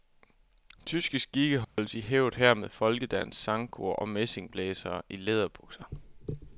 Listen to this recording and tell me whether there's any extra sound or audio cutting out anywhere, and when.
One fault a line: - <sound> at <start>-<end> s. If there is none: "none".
- dropout at 1.6-1.8 s